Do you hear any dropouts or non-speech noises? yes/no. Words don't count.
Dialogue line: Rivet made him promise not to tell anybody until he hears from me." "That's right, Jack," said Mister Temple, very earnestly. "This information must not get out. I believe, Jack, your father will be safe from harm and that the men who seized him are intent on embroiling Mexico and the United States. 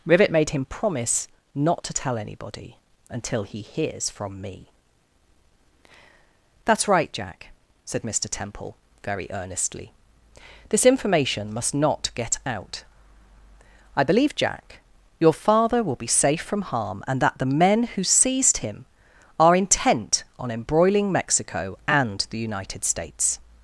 no